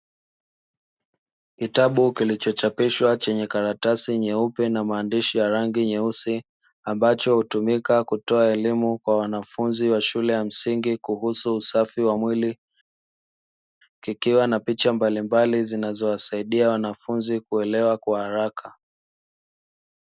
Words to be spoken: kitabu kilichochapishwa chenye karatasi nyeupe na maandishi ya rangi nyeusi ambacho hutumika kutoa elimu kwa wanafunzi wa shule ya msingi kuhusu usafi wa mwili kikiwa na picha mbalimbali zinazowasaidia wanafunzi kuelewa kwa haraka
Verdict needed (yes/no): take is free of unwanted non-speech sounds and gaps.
yes